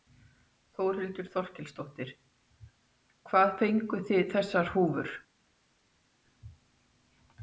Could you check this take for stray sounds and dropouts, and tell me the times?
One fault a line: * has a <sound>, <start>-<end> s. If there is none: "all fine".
all fine